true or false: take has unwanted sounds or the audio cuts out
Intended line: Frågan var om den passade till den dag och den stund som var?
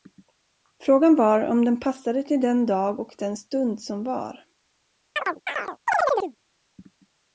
true